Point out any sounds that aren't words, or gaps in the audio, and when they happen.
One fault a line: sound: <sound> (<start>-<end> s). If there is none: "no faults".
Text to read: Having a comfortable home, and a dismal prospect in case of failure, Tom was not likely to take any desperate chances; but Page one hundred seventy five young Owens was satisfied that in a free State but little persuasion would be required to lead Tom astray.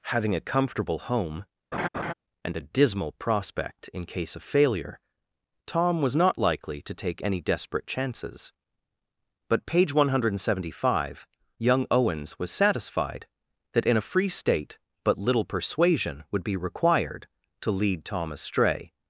sound: laugh (1.7-2.1 s)